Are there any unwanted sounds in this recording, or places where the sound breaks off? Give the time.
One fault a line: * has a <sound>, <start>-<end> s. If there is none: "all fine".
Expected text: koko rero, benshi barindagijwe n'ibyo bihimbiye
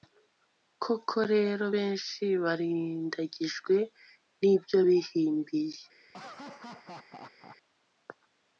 * has a laugh, 6.1-7.6 s